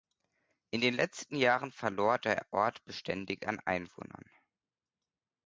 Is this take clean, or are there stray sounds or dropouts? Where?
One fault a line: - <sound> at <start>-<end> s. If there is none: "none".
none